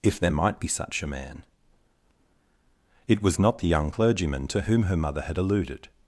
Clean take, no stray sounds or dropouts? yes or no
yes